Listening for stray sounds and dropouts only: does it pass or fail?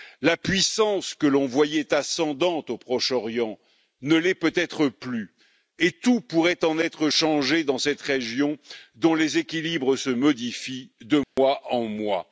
fail